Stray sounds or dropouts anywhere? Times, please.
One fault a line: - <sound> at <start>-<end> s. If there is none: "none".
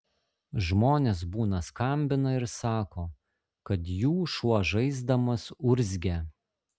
none